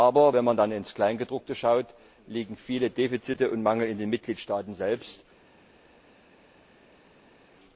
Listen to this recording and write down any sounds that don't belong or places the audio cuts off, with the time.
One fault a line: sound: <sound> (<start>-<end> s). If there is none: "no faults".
no faults